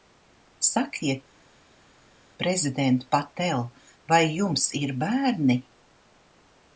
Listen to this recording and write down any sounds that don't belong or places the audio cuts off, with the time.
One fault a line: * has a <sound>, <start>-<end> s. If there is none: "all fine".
all fine